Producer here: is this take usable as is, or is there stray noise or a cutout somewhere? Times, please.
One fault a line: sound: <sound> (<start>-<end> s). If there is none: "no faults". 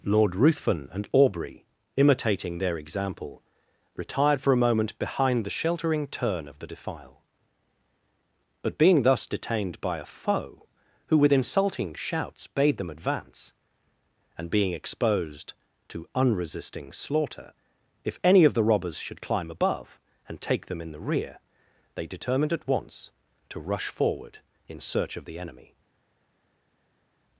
no faults